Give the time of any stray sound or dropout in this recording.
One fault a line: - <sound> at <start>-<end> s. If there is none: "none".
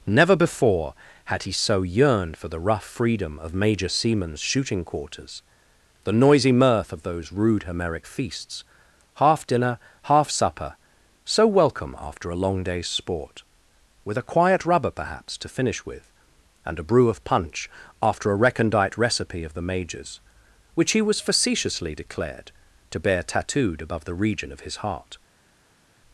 none